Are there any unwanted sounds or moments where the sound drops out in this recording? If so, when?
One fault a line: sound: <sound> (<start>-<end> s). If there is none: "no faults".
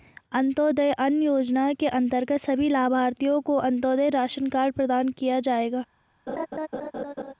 sound: laugh (6.3-7.3 s)